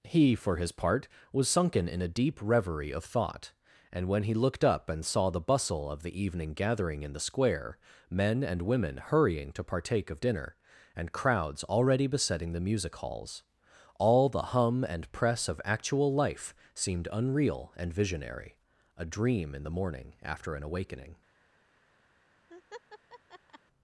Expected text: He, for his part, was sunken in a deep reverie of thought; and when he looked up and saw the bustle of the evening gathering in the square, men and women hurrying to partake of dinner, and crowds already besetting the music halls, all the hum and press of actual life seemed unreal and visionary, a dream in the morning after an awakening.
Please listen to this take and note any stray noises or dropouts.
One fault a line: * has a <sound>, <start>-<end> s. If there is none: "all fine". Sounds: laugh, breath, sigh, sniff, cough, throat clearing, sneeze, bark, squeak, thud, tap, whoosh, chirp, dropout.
* has a laugh, 22.5-23.6 s